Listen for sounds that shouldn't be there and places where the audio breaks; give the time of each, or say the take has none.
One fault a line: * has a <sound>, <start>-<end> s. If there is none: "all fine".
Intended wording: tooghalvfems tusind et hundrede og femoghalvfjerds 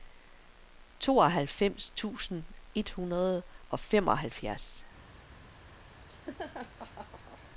* has a laugh, 6.1-7.5 s